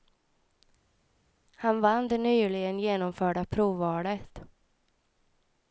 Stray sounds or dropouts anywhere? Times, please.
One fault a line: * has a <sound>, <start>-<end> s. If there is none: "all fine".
all fine